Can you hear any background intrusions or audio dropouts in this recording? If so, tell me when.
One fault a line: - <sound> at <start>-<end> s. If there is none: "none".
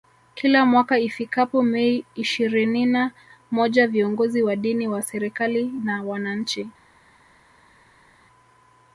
none